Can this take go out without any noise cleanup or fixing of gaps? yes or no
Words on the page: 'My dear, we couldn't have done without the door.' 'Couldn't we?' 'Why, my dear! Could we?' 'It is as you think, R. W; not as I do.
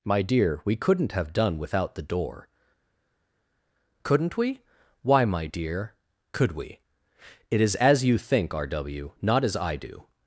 yes